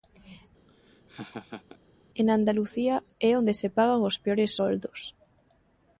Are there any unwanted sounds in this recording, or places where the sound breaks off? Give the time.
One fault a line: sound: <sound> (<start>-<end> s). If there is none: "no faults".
sound: laugh (0.7-1.8 s)